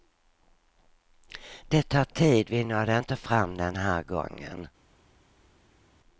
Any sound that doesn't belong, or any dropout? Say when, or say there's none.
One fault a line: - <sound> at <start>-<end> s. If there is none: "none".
none